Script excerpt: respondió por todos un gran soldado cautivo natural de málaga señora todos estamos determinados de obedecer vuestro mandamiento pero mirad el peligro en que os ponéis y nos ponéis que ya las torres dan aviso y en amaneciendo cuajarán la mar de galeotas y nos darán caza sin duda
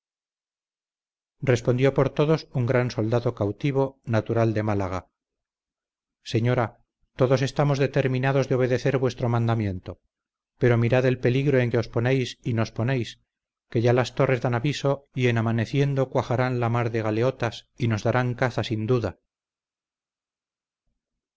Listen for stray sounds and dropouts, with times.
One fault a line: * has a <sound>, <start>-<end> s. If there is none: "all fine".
all fine